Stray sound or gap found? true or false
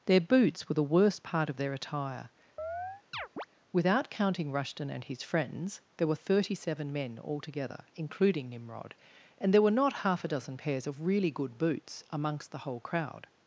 true